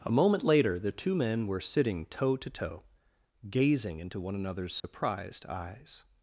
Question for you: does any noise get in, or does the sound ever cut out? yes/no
yes